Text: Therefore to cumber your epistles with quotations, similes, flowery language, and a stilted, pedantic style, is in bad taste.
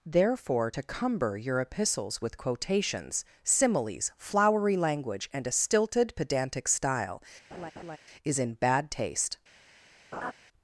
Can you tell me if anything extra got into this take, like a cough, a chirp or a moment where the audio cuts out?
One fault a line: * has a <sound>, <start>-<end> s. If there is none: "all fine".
* has a laugh, 7.5-8.0 s
* has a laugh, 10.1-10.3 s